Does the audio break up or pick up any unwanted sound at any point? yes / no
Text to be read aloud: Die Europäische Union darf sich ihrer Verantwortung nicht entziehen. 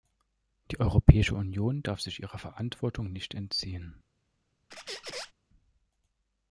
yes